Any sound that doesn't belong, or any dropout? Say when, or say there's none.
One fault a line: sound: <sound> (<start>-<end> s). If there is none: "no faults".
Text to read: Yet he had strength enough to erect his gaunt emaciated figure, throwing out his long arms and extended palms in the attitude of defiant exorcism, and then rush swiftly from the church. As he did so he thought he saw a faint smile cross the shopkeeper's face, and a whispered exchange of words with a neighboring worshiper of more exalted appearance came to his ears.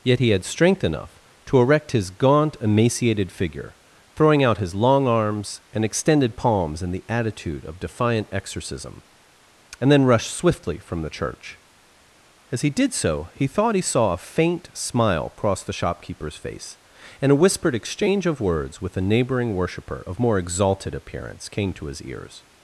no faults